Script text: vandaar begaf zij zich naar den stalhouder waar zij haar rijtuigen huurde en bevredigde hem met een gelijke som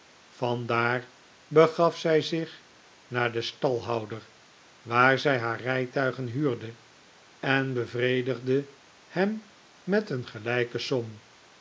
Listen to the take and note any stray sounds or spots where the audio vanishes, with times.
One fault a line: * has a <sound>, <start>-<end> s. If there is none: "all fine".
all fine